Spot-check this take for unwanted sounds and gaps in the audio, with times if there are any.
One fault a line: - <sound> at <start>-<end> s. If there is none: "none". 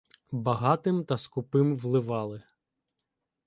none